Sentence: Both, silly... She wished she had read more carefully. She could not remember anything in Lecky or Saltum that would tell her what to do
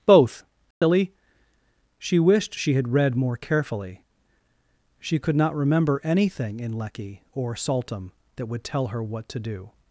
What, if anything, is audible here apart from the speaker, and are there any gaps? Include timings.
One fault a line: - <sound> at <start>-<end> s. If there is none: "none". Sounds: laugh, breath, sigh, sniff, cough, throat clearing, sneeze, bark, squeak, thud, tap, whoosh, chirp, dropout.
- dropout at 0.7-0.8 s